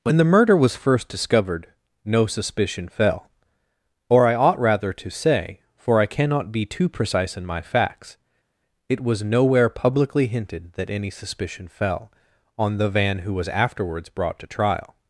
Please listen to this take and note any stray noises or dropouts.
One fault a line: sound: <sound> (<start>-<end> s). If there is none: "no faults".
no faults